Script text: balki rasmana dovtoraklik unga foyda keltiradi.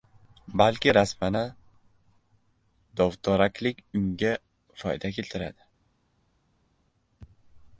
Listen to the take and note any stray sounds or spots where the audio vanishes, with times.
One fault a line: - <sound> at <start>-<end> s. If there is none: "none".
none